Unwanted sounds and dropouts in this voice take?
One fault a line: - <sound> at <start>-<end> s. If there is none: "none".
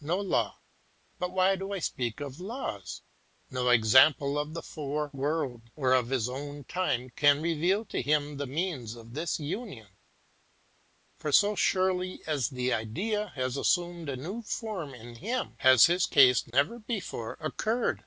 - dropout at 16.5-16.5 s